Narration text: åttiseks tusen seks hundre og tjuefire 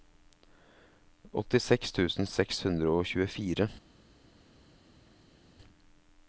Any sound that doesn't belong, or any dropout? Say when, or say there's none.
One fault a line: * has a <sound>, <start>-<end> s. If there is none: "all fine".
all fine